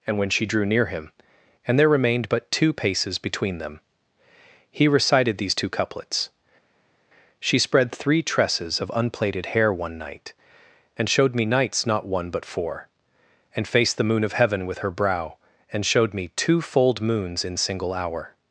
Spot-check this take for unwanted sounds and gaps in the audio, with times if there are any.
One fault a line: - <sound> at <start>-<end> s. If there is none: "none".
none